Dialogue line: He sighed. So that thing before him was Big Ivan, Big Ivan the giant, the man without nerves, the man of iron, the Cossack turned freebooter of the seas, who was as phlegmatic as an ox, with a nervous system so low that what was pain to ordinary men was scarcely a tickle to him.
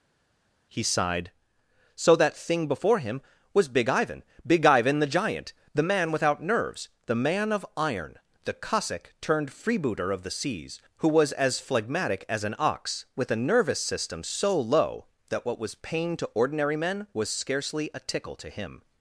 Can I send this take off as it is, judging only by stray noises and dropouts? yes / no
yes